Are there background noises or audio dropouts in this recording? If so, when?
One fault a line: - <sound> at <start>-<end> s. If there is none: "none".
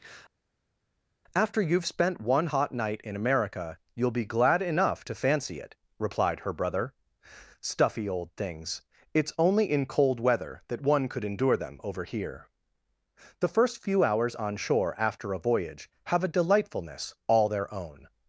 none